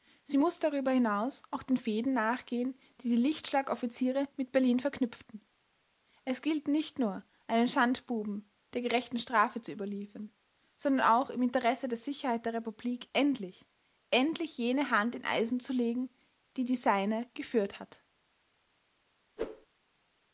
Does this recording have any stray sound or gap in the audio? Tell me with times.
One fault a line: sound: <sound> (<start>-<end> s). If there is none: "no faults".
sound: whoosh (19.4-19.7 s)